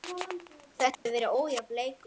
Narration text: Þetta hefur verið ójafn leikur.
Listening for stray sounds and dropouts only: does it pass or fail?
fail